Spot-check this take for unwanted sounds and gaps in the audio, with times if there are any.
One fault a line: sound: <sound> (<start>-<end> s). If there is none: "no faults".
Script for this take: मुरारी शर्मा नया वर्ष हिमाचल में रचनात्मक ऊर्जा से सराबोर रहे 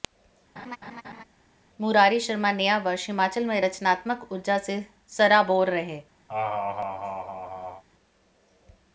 sound: laugh (0.6-1.2 s)
sound: laugh (6.3-7.8 s)